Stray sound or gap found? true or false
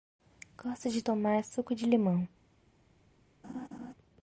true